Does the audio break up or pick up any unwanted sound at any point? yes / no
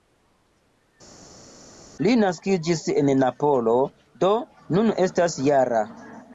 no